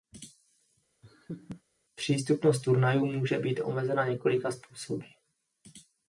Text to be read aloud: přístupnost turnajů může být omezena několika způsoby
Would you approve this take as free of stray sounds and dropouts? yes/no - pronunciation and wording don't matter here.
no